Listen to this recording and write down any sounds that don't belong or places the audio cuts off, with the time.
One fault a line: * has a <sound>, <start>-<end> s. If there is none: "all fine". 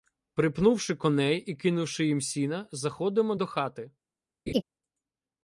* has a laugh, 4.5-4.6 s